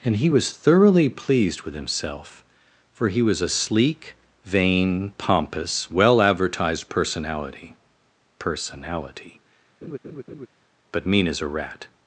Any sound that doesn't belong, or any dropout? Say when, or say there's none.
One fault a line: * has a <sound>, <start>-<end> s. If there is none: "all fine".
* has a laugh, 9.8-10.5 s